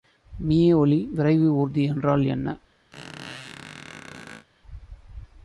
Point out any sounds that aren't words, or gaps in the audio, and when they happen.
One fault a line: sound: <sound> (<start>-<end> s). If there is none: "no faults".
sound: squeak (2.9-4.5 s)